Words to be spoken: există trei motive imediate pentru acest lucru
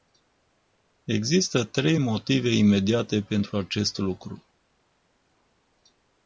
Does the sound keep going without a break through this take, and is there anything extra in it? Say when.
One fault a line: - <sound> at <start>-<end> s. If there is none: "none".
none